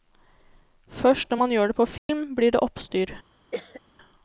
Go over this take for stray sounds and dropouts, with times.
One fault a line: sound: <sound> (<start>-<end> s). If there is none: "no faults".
sound: dropout (2.0-2.1 s)
sound: cough (3.5-3.8 s)